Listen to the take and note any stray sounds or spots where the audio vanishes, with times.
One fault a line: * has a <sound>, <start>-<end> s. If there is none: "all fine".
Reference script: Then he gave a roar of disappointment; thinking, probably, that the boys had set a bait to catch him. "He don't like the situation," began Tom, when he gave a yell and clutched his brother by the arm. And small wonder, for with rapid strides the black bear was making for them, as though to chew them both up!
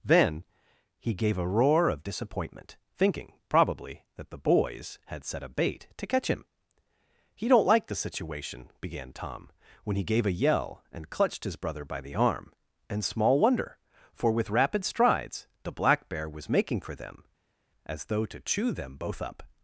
all fine